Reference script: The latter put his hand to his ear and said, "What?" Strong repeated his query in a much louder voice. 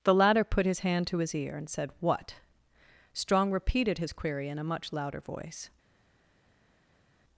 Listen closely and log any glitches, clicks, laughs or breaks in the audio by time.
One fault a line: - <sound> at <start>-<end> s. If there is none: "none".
none